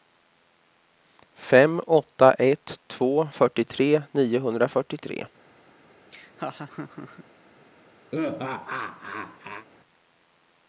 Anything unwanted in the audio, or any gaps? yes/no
yes